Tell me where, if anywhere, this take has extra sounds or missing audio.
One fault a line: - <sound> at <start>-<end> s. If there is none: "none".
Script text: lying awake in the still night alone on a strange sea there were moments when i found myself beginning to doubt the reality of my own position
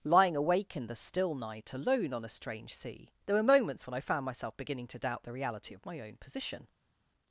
none